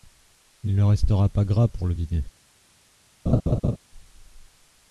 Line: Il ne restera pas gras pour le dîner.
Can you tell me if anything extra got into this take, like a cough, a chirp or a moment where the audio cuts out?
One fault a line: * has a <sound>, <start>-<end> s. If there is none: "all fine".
* has a laugh, 3.3-3.8 s